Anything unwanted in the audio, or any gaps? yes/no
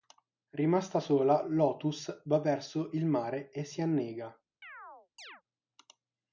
yes